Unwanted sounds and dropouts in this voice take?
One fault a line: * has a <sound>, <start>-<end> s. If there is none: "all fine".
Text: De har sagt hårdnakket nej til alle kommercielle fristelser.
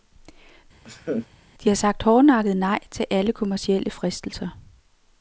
* has a laugh, 0.8-1.3 s